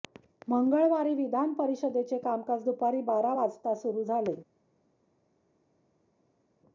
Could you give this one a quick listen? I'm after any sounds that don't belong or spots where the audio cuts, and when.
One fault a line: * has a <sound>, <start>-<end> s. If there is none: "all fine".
all fine